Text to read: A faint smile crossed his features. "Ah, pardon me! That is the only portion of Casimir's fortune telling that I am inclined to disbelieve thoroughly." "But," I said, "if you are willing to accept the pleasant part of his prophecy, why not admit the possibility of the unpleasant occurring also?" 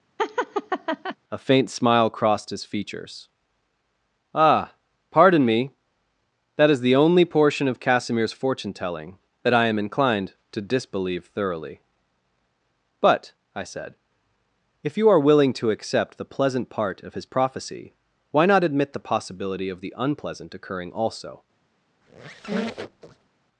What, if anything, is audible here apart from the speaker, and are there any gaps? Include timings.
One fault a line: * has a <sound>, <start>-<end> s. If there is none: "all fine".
* has a laugh, 0.2-1.2 s
* has a squeak, 22.0-23.3 s